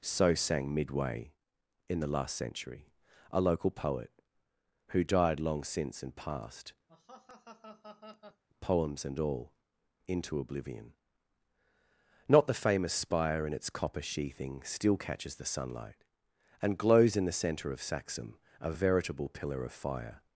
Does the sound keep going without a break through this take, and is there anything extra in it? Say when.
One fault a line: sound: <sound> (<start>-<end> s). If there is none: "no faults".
sound: laugh (6.9-8.4 s)